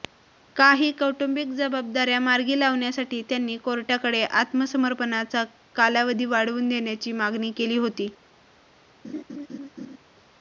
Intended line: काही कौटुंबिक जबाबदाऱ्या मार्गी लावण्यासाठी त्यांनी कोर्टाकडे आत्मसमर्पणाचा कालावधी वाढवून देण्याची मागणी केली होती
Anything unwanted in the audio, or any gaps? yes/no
yes